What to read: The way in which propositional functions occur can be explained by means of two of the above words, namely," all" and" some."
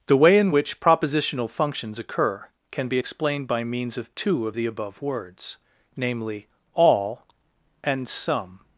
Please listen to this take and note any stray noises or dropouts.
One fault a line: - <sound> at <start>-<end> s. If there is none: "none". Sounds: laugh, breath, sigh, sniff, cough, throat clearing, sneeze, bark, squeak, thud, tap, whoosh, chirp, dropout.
none